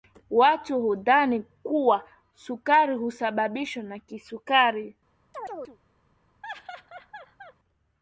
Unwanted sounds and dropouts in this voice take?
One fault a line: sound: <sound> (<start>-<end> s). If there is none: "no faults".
sound: chirp (5.3-5.8 s)
sound: laugh (6.4-7.5 s)